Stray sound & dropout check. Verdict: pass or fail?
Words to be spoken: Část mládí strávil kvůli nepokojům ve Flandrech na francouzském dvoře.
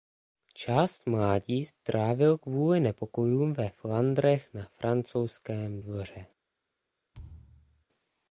fail